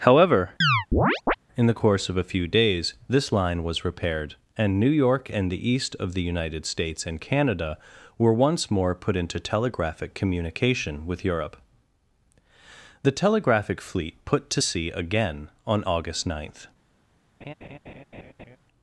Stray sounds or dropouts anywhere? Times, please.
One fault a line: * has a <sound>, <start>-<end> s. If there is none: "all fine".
* has a chirp, 0.6-1.3 s
* has a laugh, 17.4-18.6 s